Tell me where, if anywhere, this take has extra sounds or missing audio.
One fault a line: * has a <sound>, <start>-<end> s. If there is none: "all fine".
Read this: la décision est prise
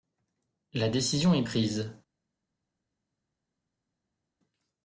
all fine